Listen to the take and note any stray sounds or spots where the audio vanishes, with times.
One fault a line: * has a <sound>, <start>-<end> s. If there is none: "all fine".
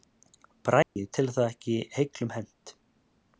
* has a dropout, 0.8-1.0 s